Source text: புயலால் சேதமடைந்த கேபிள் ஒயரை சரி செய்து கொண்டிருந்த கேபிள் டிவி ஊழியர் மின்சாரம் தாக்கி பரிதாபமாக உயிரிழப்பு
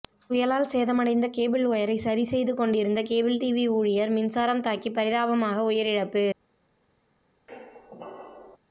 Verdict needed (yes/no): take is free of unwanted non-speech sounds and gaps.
no